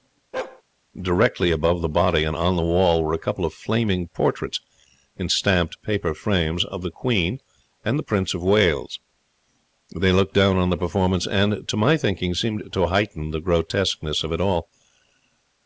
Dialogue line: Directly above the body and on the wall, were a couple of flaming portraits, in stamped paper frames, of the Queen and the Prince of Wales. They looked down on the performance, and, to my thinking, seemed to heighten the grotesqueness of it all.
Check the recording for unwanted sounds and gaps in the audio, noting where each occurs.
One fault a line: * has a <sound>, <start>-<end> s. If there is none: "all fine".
* has a bark, 0.3-0.6 s